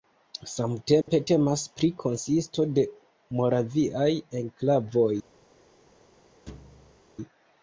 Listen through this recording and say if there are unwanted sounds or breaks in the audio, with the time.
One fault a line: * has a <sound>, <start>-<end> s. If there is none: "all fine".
* has a dropout, 1.0-1.1 s
* has a thud, 6.5-7.0 s